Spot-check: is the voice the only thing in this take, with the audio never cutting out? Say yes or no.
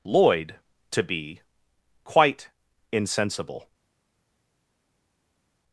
yes